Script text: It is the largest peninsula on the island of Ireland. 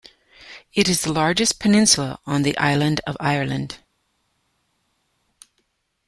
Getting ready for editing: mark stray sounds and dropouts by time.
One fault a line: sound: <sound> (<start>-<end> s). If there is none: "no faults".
no faults